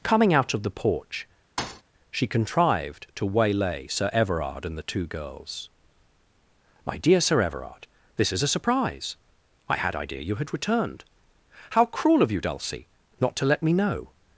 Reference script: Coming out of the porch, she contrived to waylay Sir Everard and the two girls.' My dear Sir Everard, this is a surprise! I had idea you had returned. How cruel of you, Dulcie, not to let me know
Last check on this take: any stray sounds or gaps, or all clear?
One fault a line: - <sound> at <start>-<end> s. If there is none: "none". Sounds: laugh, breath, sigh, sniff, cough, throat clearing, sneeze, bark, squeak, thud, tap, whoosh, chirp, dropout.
- thud at 1.6-1.8 s